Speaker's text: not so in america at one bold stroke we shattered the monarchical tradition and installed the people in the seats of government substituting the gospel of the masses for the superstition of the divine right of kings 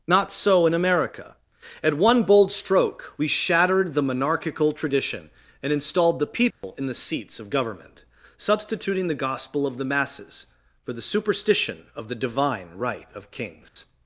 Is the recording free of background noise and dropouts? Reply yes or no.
no